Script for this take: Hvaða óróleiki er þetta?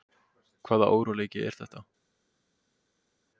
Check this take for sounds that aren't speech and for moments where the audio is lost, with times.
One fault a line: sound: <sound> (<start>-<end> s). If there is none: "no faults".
no faults